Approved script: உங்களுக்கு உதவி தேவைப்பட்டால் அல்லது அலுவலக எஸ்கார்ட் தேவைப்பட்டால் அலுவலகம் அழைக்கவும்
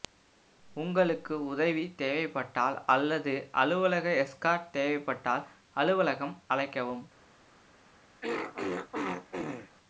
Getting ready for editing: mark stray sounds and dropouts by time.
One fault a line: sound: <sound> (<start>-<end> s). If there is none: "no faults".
sound: throat clearing (8.2-9.7 s)